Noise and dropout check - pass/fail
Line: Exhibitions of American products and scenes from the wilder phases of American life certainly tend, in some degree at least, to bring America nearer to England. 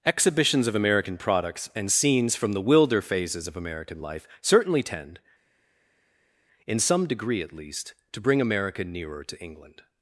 pass